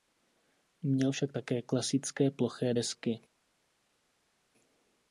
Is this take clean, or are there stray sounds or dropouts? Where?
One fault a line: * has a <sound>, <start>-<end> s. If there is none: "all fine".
all fine